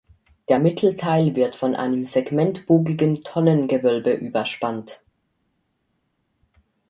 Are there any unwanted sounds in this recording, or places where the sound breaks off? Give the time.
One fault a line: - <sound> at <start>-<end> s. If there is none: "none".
none